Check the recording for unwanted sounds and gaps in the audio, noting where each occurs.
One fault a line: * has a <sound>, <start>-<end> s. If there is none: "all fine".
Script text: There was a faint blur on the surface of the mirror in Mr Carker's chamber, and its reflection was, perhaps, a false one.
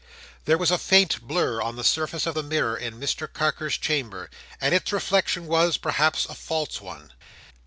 all fine